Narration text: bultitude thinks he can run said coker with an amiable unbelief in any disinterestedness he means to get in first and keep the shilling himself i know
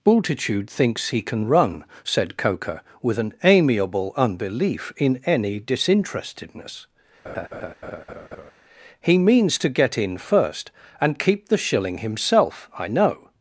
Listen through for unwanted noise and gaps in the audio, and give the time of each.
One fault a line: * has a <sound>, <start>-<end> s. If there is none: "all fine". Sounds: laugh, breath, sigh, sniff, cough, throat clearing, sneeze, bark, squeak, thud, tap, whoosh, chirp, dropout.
* has a laugh, 7.2-8.5 s